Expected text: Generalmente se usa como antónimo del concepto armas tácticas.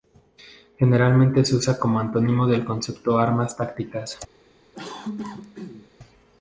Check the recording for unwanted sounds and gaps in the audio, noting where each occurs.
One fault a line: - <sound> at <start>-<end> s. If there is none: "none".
- cough at 4.7-5.9 s